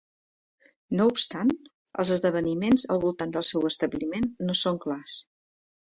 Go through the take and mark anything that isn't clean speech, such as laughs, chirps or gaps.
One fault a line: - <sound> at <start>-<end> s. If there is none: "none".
none